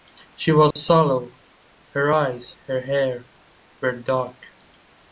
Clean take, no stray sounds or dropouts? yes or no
no